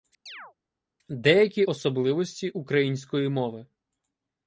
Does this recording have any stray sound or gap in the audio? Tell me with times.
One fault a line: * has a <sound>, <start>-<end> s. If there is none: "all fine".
* has a chirp, 0.3-0.5 s